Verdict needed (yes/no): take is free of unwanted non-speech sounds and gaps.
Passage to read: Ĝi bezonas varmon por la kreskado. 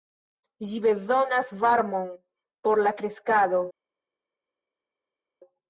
yes